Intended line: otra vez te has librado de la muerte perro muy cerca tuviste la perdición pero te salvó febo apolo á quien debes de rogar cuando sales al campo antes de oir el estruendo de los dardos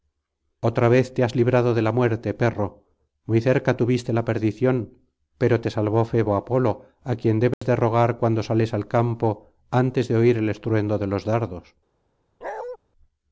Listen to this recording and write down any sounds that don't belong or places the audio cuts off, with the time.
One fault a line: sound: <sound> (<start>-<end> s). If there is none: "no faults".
sound: dropout (7.5-7.6 s)
sound: bark (12.4-12.8 s)